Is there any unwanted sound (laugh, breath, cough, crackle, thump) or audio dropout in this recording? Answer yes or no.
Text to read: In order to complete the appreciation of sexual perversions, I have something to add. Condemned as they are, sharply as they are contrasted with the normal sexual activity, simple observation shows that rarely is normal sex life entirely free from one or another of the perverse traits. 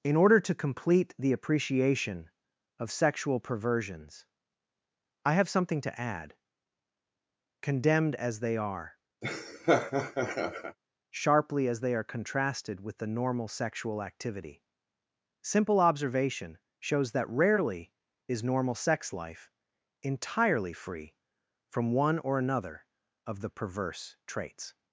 yes